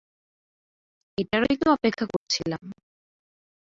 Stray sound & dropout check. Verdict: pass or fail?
fail